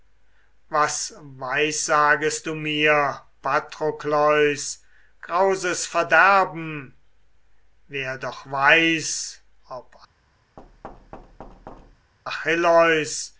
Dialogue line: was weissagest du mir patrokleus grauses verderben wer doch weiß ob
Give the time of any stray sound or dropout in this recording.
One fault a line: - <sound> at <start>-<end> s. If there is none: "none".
- thud at 10.6-12.1 s